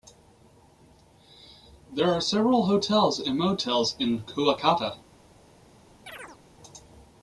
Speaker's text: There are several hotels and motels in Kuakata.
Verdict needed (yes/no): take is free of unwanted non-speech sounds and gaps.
no